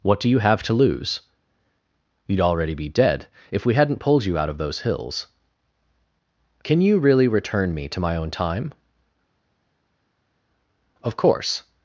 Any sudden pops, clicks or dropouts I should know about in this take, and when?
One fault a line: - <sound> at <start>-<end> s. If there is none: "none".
none